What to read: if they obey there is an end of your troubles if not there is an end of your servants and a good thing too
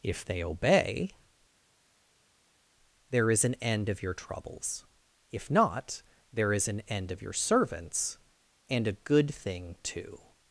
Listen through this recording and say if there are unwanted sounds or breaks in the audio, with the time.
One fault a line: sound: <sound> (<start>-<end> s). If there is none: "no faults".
no faults